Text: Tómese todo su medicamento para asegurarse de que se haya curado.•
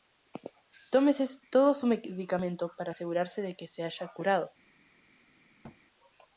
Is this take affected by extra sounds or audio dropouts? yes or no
yes